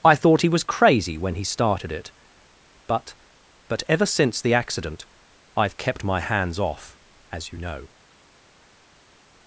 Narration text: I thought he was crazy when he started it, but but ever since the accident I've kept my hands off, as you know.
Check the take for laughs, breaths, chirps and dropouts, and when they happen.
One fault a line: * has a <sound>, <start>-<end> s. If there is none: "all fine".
all fine